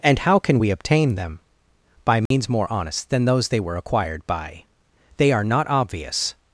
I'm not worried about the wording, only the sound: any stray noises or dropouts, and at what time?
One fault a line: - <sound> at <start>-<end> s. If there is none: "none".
- dropout at 2.3-2.3 s